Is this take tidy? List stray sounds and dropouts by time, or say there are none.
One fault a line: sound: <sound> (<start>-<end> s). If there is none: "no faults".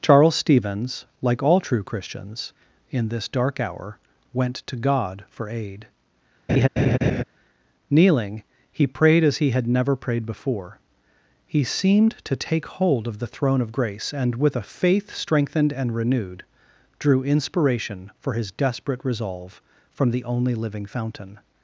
sound: laugh (6.5-7.2 s)